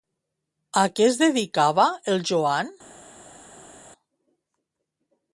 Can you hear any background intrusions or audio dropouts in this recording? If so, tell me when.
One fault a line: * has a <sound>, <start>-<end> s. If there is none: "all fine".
all fine